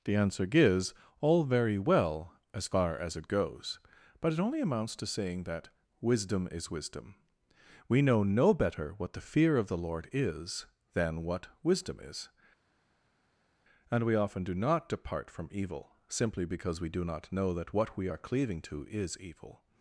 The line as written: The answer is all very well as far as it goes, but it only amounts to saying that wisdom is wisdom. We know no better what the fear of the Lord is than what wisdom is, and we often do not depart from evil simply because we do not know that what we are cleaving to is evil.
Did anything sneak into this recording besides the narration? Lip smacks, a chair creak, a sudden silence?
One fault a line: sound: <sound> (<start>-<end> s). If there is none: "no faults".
no faults